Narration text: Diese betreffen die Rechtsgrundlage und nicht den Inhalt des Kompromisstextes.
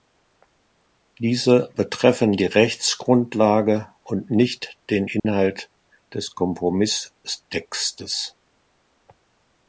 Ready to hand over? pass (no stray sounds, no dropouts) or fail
fail